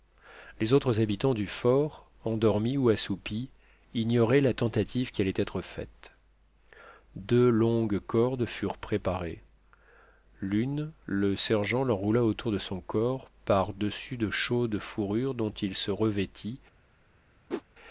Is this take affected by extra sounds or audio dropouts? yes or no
yes